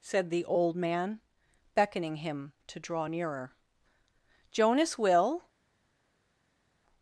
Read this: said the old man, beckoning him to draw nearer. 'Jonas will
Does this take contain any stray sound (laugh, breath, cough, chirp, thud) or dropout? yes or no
no